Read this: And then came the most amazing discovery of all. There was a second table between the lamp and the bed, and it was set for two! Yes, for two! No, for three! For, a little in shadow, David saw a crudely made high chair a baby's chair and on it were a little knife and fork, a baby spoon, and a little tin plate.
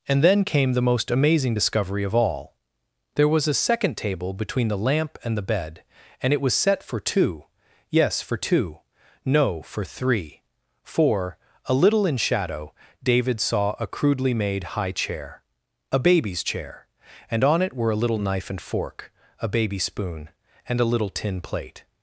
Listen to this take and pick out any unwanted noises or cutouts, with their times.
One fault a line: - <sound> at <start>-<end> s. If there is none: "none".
none